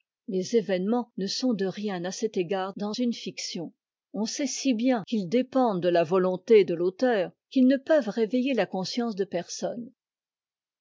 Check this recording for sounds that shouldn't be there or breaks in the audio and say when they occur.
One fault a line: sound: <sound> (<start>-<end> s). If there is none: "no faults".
no faults